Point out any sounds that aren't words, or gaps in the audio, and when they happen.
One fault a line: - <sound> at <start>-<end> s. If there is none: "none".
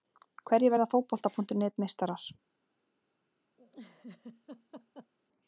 - laugh at 3.6-5.1 s